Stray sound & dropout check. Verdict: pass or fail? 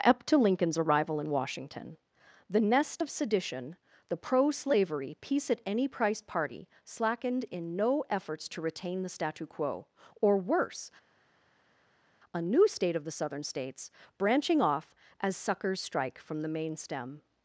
pass